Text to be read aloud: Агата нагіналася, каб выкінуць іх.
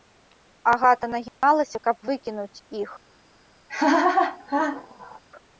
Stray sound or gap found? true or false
true